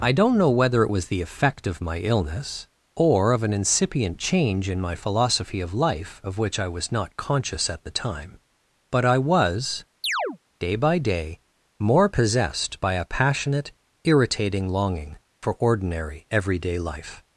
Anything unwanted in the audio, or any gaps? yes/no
yes